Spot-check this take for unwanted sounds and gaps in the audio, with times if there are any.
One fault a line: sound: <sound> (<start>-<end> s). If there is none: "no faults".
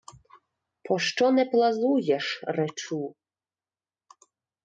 no faults